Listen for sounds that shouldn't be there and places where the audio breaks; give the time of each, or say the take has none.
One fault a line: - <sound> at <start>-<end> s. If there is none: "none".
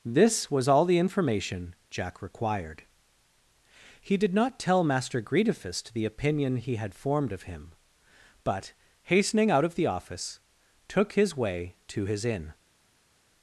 none